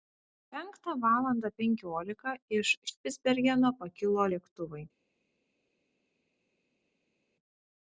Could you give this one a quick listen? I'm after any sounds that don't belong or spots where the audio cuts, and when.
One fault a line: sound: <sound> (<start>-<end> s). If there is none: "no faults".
no faults